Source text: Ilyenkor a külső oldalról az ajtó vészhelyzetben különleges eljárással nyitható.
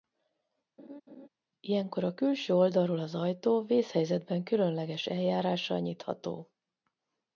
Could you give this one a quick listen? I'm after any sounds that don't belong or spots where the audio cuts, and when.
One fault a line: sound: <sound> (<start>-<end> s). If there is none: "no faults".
sound: laugh (0.8-1.3 s)